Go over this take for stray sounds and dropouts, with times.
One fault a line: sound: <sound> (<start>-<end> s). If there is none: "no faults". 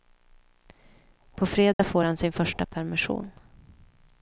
sound: dropout (1.7-1.8 s)